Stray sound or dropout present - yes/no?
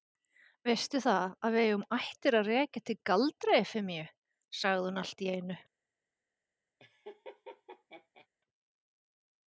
yes